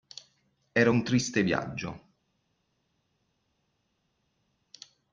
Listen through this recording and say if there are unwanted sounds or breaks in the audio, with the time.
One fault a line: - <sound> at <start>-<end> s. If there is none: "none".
none